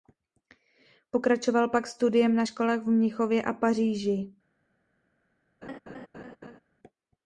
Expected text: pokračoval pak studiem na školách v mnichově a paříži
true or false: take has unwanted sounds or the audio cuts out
true